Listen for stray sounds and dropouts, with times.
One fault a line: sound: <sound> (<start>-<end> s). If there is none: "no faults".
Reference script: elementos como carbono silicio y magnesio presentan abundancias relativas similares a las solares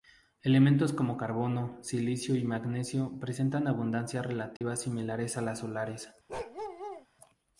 sound: dropout (4.6-4.6 s)
sound: bark (6.3-7.1 s)